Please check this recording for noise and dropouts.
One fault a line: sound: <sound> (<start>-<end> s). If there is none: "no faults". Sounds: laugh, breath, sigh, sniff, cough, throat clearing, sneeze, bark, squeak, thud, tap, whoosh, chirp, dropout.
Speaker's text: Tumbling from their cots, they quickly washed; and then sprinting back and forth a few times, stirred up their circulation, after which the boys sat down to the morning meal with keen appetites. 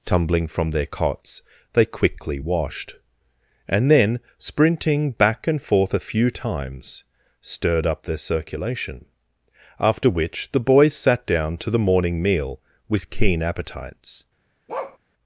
sound: bark (14.7-15.0 s)